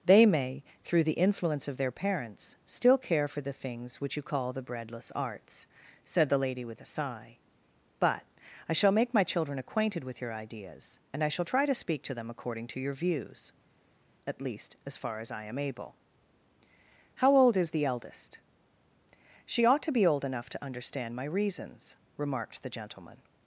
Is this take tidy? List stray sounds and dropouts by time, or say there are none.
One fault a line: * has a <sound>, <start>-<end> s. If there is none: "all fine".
all fine